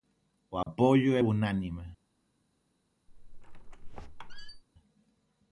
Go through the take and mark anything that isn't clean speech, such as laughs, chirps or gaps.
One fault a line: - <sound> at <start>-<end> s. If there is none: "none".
- dropout at 0.6-0.7 s
- squeak at 3.1-4.6 s